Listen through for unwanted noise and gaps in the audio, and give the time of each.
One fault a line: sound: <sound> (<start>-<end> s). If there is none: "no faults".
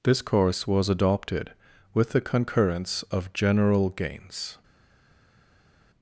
no faults